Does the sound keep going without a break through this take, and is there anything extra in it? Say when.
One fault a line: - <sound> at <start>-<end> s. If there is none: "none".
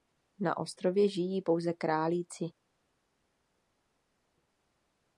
none